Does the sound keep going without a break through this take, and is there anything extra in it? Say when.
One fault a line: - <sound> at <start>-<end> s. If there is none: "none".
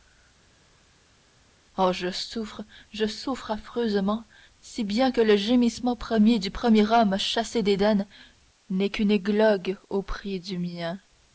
none